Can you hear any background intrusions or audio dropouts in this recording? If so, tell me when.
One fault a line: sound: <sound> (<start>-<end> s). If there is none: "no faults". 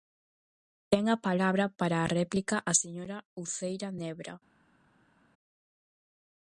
no faults